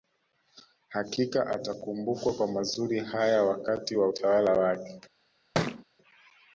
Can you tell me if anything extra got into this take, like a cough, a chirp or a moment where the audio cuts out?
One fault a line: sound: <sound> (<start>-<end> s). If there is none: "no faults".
sound: thud (5.5-5.8 s)